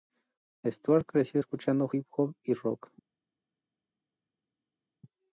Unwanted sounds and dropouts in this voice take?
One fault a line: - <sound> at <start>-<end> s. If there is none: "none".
none